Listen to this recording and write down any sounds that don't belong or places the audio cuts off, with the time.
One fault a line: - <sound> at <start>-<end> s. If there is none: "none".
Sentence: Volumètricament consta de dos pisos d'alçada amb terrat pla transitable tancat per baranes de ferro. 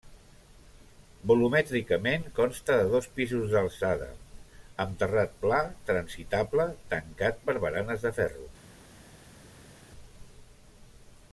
none